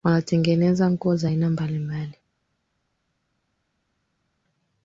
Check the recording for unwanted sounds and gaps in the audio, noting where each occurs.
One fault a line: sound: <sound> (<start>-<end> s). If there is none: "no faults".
no faults